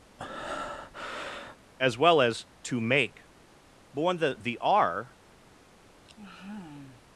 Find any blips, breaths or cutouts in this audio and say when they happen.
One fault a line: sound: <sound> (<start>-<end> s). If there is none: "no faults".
sound: breath (0.2-1.6 s)
sound: sigh (6.0-7.0 s)